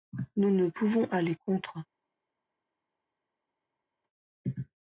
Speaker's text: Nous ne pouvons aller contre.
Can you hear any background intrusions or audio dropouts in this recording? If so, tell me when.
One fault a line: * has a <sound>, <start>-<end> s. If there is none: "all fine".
all fine